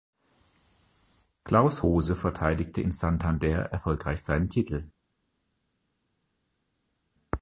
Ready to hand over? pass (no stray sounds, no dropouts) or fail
pass